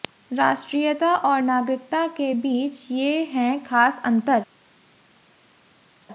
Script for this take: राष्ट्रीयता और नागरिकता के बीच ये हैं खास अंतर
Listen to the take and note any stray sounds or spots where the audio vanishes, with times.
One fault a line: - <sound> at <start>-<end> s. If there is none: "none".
none